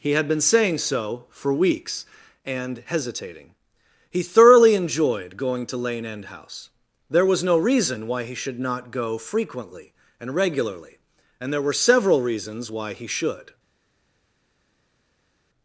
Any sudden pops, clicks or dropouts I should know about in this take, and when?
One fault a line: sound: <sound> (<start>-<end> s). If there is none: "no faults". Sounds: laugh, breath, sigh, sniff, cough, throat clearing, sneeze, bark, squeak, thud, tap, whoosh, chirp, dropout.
no faults